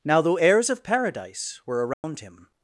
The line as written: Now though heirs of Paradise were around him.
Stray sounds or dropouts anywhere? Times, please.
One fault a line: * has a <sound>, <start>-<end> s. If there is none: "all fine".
* has a dropout, 1.9-2.0 s